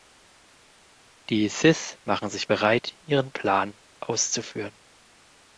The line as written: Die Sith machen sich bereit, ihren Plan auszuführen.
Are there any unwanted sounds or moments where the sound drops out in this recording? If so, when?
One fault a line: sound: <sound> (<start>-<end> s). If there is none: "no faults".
no faults